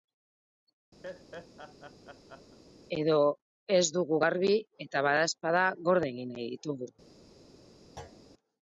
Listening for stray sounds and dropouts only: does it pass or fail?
fail